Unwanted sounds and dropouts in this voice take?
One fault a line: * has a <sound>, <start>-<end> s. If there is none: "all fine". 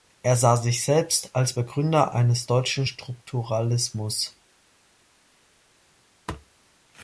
all fine